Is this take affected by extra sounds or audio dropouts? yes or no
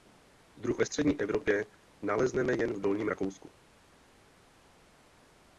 no